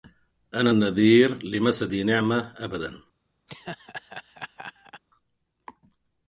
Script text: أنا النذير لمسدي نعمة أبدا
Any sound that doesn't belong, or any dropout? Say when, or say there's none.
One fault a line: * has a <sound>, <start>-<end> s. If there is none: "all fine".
* has a laugh, 3.5-5.0 s